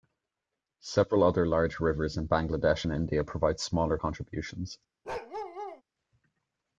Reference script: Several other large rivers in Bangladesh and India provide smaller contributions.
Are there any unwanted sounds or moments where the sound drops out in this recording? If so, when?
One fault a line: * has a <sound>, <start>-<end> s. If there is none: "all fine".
* has a bark, 5.0-5.8 s